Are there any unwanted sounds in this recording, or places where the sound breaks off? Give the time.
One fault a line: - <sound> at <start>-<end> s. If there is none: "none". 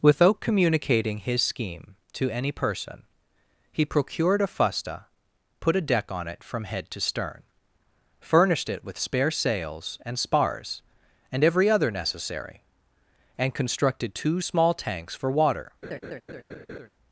- laugh at 15.8-16.9 s